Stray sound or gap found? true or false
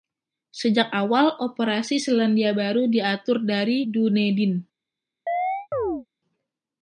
true